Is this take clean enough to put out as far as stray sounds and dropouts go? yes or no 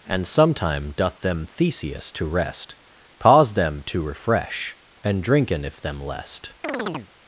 no